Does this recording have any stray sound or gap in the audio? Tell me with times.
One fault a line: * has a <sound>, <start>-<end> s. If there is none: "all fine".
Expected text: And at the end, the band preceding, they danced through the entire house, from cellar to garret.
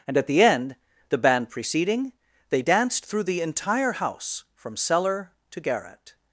all fine